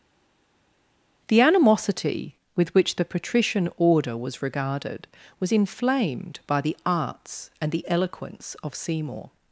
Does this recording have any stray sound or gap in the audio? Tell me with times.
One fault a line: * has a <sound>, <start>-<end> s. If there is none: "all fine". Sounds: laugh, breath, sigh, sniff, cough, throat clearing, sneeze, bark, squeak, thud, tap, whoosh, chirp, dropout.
all fine